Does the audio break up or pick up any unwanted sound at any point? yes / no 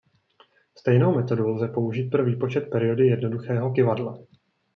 no